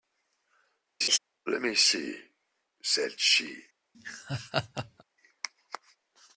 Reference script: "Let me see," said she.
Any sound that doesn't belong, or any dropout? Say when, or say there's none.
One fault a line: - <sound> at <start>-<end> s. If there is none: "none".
- laugh at 1.0-1.2 s
- laugh at 3.9-5.0 s